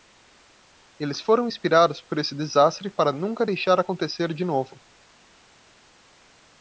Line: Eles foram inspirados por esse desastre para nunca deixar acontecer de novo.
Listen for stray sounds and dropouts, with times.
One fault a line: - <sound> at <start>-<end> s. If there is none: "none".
none